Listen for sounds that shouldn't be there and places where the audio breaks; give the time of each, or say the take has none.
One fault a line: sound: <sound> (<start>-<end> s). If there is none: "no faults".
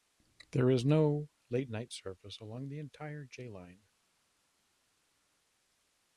no faults